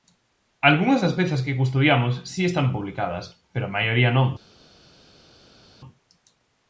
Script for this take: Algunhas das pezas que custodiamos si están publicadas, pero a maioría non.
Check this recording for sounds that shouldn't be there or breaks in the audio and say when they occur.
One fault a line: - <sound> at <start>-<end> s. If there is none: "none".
none